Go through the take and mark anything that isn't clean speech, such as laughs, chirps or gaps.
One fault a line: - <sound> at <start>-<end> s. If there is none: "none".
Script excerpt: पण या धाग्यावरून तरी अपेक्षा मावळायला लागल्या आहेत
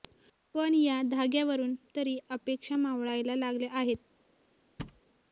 - thud at 4.8-5.0 s